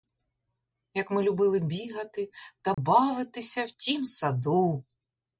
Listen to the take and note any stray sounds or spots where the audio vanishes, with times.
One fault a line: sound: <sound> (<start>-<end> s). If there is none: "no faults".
sound: dropout (2.7-2.8 s)